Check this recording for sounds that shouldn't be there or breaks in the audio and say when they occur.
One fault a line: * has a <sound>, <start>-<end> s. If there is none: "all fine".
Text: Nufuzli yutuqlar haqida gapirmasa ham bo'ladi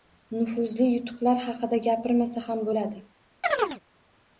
* has a chirp, 3.4-3.8 s